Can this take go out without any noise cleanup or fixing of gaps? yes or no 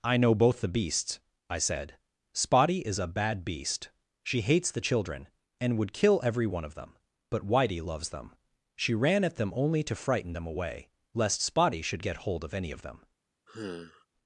no